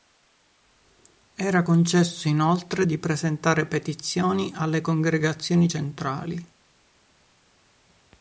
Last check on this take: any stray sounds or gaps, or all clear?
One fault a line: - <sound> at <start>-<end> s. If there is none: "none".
none